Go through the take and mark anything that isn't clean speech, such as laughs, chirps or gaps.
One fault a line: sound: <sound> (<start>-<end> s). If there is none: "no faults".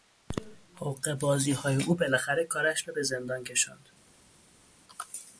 no faults